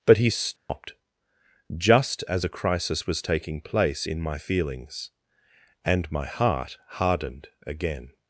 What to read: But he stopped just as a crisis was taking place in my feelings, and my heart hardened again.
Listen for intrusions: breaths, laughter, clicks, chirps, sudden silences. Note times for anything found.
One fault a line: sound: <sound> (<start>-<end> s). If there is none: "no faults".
sound: dropout (0.6-0.7 s)